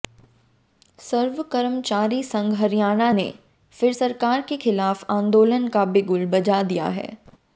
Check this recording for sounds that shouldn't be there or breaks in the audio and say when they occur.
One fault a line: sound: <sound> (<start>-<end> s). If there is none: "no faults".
no faults